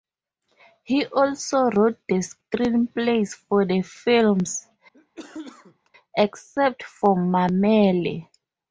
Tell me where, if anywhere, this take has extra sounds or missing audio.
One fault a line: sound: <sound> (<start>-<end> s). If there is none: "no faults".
sound: cough (4.9-5.9 s)